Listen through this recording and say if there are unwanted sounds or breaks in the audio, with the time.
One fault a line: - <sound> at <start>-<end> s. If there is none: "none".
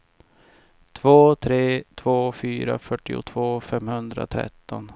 none